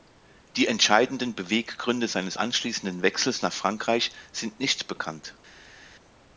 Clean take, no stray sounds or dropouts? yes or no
yes